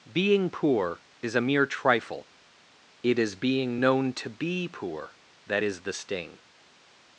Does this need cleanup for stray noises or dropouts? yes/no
no